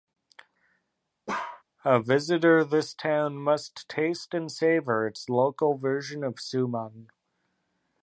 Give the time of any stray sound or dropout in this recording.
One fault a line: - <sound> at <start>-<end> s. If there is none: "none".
- bark at 1.3-1.6 s